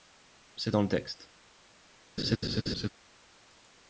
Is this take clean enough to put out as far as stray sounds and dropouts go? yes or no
no